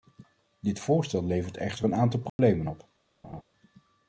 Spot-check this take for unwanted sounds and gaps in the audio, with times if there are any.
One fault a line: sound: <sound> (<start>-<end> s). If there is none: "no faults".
sound: dropout (2.3-2.4 s)
sound: laugh (3.2-3.4 s)